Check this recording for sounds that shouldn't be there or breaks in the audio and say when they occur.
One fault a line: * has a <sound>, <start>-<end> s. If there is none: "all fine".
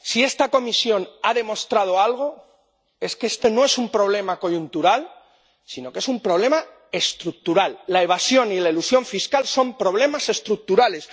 all fine